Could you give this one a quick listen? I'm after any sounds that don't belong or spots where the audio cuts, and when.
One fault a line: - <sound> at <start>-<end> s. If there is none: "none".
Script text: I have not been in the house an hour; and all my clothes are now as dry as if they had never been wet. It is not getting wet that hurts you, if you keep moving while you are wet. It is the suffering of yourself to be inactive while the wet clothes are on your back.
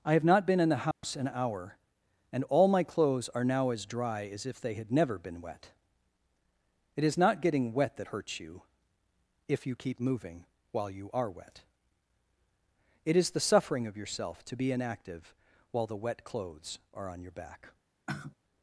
- dropout at 0.9-1.0 s
- sigh at 18.1-18.3 s